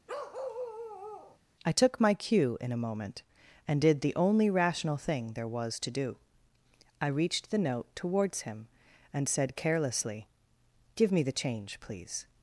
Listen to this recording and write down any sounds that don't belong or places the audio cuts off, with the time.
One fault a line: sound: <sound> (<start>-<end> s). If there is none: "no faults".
sound: bark (0.1-1.4 s)